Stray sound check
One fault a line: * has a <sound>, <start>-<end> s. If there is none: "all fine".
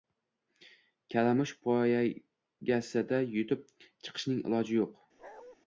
* has a bark, 5.2-5.6 s